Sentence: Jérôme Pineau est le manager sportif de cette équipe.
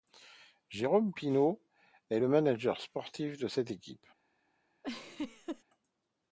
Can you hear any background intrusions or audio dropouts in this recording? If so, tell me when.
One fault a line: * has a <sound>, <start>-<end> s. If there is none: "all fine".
* has a laugh, 4.8-5.6 s